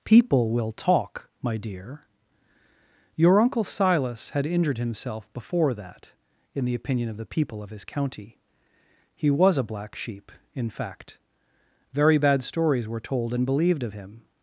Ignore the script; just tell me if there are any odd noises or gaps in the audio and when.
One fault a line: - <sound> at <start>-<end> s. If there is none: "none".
none